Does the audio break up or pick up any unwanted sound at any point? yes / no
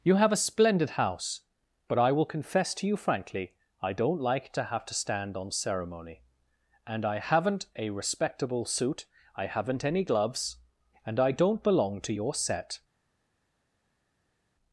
no